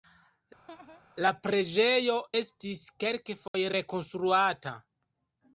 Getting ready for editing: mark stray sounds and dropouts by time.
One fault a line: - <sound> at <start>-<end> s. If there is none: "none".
- laugh at 0.7-1.0 s
- dropout at 3.5-3.5 s